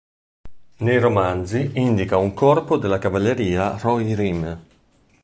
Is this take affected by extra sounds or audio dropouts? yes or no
no